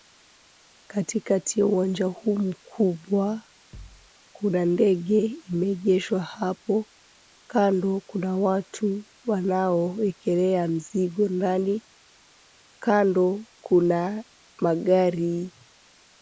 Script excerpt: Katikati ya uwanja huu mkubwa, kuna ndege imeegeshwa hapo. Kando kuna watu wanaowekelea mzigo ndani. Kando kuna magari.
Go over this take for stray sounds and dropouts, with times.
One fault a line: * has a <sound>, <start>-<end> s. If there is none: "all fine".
* has a thud, 3.7-4.1 s